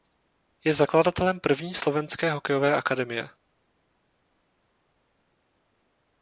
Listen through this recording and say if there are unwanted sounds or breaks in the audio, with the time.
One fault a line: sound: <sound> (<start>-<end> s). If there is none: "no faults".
no faults